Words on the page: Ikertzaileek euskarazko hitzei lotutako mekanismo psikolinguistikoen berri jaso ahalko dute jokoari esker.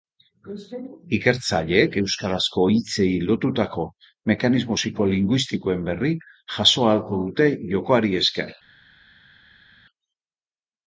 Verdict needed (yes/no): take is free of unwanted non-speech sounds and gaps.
yes